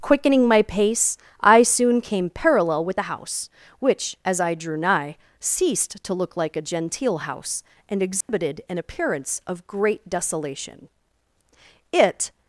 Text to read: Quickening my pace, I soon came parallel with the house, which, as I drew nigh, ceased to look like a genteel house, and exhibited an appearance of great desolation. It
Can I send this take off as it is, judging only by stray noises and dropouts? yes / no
no